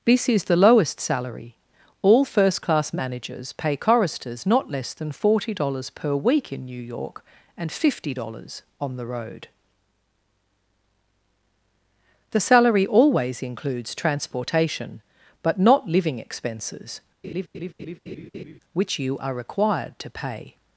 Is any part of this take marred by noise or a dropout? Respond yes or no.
yes